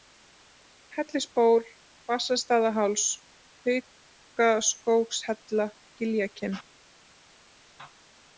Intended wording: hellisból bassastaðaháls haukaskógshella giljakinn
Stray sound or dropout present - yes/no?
no